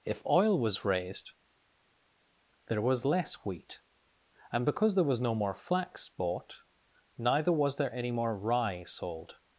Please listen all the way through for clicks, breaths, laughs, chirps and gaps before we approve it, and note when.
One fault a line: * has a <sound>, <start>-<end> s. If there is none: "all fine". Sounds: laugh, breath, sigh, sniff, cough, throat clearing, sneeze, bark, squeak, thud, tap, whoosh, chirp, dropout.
all fine